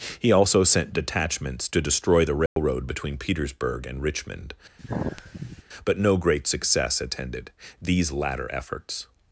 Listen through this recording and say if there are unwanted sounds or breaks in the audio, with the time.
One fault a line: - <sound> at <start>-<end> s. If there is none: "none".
- dropout at 2.5-2.6 s
- sigh at 4.8-5.6 s